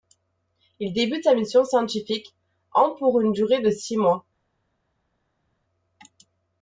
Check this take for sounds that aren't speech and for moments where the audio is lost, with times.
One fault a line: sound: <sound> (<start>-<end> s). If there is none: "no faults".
no faults